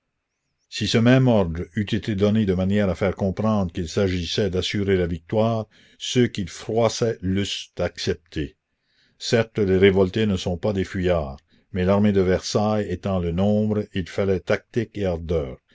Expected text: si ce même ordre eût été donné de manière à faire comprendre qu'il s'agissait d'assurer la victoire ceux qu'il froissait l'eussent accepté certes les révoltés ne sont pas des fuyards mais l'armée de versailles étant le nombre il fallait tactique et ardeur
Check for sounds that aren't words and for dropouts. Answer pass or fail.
pass